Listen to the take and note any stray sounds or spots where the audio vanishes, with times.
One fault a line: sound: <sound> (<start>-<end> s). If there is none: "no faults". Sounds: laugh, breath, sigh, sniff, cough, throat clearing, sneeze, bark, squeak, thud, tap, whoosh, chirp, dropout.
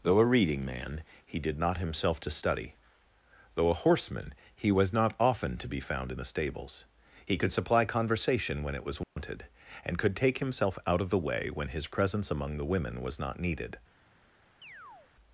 sound: dropout (9.0-9.2 s)
sound: chirp (14.6-15.1 s)